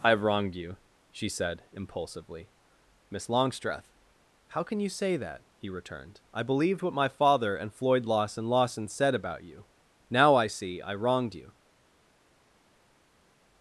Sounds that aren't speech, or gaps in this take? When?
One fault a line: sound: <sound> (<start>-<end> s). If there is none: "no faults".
no faults